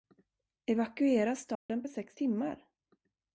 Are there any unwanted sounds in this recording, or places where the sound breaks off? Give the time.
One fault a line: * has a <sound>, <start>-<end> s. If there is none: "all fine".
* has a dropout, 1.6-1.7 s